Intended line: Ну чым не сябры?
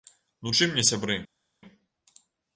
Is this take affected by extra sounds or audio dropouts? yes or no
no